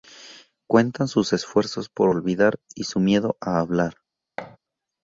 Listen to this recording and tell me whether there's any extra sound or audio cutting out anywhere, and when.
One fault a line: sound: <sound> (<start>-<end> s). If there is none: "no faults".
sound: thud (4.4-4.6 s)